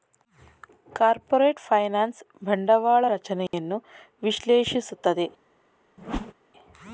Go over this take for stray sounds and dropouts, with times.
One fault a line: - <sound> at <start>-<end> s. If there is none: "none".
- dropout at 3.5-3.5 s
- whoosh at 6.0-6.3 s